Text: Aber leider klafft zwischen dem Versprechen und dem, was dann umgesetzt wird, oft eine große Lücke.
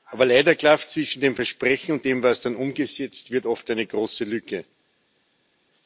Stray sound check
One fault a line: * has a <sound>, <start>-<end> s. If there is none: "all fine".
all fine